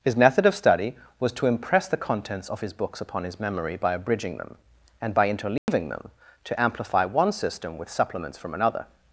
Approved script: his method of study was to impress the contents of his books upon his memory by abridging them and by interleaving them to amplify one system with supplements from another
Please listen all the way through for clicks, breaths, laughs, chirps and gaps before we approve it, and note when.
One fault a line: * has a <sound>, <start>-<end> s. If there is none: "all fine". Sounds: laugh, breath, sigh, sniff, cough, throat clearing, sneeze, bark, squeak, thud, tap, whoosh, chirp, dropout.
* has a dropout, 5.6-5.7 s